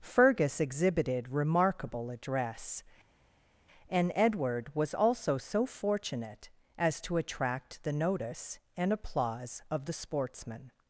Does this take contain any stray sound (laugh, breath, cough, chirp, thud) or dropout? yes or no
no